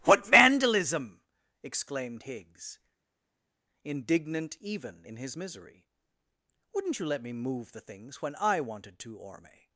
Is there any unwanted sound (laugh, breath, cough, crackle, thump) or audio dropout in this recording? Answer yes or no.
no